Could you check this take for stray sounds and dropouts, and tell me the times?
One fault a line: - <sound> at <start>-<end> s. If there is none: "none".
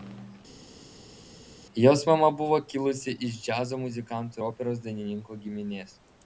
none